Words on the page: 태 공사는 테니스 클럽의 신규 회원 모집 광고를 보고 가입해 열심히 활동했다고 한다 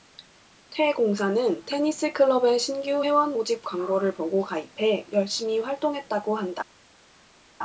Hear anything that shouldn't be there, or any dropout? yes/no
no